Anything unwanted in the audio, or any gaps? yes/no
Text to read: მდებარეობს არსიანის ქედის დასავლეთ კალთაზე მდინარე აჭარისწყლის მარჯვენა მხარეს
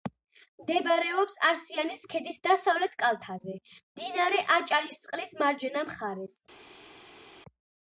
no